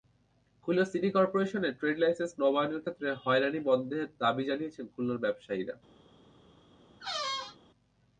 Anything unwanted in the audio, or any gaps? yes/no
yes